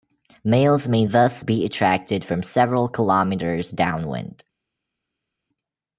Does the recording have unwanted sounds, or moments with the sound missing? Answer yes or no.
no